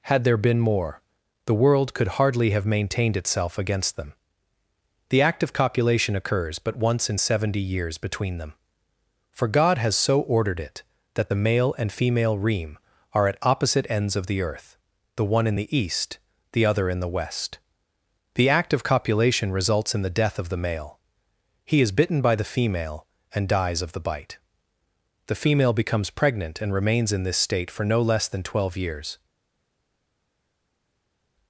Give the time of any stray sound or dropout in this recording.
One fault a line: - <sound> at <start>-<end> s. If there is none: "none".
none